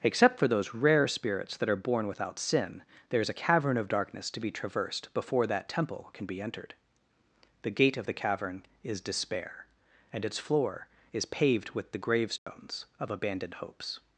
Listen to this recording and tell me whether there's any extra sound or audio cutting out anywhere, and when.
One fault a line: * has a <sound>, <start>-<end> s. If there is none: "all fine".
* has a dropout, 12.4-12.5 s